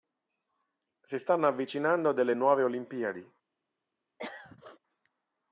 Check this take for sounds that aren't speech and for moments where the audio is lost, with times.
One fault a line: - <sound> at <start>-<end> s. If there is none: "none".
- throat clearing at 4.2-4.8 s